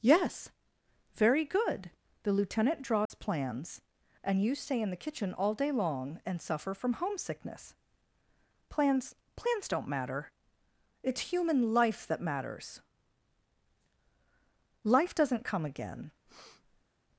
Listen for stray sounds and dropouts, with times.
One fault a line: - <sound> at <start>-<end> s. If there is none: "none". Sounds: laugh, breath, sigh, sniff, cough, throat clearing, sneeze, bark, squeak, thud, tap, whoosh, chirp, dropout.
- dropout at 3.1-3.1 s
- breath at 16.3-16.9 s